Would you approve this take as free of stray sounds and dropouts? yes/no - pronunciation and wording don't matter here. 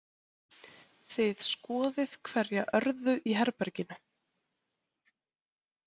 yes